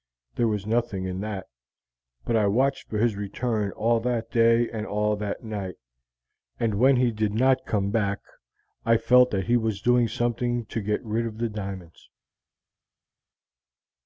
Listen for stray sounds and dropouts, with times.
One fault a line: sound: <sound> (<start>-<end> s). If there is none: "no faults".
no faults